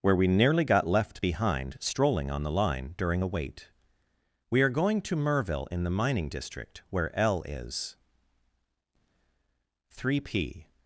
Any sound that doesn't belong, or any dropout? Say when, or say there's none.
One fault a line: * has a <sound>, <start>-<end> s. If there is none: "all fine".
all fine